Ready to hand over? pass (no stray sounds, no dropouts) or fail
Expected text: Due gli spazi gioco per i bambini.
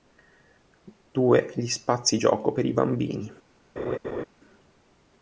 fail